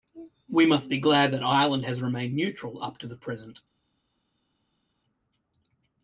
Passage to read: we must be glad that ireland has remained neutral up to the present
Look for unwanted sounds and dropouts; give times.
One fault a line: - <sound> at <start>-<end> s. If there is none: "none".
none